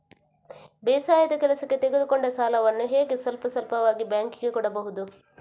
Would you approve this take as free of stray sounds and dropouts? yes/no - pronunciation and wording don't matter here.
yes